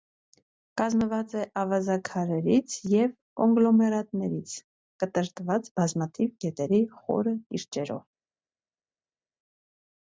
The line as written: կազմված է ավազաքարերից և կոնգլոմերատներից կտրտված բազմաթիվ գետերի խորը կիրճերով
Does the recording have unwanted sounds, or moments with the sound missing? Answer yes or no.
no